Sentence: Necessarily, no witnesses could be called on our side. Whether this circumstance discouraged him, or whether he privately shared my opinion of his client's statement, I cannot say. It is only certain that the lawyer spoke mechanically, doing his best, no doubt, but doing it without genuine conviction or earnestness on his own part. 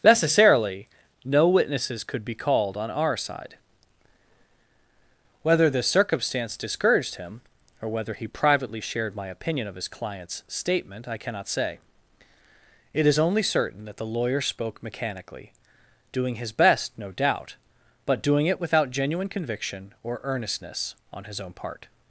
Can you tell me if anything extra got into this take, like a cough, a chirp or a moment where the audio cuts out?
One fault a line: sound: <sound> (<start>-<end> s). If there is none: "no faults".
no faults